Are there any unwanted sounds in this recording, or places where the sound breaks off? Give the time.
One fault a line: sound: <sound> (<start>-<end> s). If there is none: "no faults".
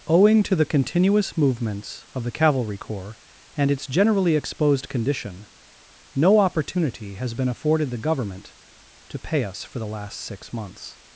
no faults